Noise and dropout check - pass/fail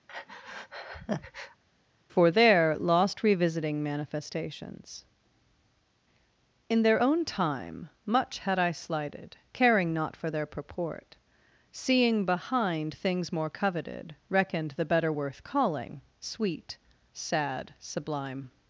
fail